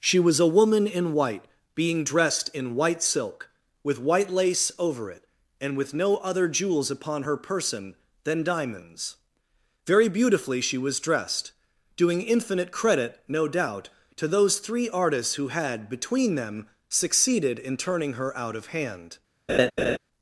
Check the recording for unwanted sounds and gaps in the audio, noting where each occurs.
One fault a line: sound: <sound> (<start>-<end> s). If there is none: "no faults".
sound: laugh (19.5-20.0 s)